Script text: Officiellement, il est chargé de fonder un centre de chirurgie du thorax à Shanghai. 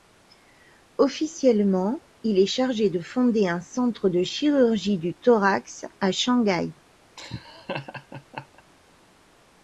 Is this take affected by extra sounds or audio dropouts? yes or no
yes